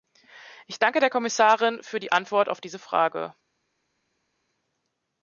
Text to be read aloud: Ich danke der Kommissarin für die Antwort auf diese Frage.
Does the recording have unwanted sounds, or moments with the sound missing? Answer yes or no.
no